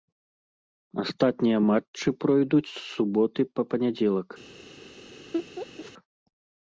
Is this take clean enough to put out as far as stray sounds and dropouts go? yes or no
no